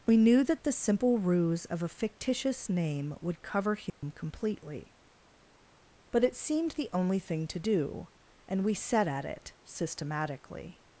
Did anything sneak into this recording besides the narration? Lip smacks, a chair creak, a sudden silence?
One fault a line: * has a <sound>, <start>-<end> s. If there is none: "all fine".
* has a dropout, 3.9-4.0 s